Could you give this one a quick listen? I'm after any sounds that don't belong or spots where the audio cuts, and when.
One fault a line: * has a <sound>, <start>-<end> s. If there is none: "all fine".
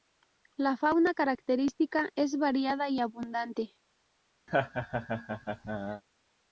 * has a laugh, 4.5-6.0 s